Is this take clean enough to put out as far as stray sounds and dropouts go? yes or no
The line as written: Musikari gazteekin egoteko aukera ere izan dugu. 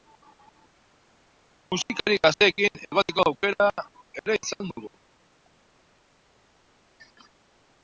yes